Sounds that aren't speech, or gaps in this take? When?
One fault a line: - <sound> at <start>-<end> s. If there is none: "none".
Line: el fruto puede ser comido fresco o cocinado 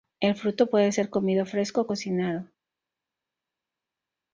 none